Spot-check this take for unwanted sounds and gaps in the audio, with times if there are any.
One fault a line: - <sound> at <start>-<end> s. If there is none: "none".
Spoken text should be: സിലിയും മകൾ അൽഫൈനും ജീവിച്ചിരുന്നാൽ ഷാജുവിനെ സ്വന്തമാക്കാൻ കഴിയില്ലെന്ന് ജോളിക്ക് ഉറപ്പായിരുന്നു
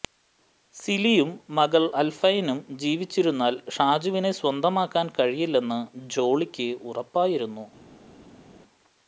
none